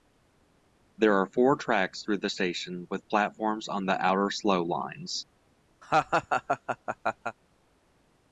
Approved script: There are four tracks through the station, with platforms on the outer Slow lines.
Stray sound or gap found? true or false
true